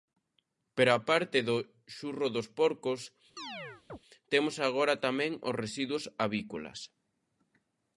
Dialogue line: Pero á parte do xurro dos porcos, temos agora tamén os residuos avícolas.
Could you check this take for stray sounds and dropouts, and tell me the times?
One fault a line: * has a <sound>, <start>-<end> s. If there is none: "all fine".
* has a chirp, 3.4-4.0 s